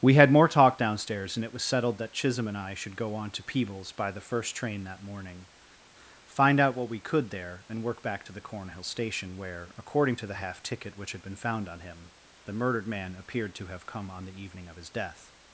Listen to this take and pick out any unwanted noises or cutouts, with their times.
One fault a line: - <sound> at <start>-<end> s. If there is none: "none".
none